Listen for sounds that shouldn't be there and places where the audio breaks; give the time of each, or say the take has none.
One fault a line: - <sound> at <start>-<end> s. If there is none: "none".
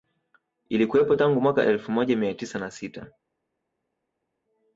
none